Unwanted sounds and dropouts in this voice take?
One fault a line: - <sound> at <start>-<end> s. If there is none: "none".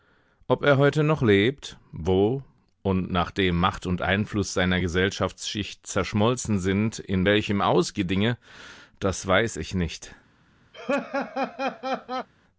- laugh at 10.7-12.3 s